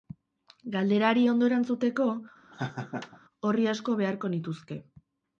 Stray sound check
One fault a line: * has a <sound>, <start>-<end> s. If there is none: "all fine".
* has a laugh, 2.5-3.2 s